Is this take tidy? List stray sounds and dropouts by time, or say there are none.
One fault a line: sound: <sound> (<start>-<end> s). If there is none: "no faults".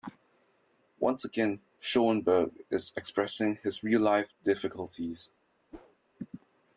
sound: whoosh (5.7-6.0 s)